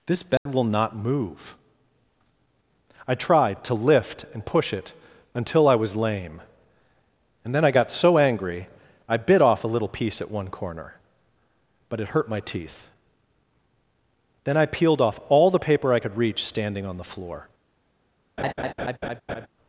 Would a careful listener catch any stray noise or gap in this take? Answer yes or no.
yes